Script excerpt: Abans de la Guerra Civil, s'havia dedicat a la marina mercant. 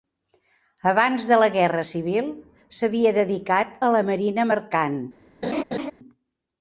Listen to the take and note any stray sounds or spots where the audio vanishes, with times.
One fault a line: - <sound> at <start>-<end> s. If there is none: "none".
- laugh at 5.4-5.9 s